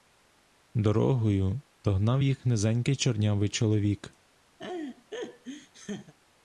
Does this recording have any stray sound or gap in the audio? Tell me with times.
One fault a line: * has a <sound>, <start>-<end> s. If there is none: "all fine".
* has a laugh, 4.6-6.1 s